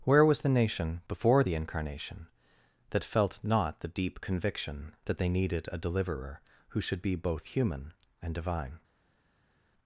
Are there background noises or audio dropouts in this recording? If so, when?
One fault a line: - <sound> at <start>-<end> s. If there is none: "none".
none